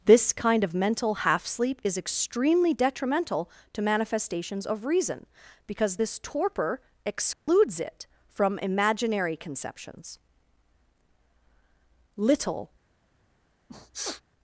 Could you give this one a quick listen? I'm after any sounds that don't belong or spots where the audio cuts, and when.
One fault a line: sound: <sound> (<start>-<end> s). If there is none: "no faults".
sound: dropout (7.3-7.5 s)
sound: sniff (13.7-14.2 s)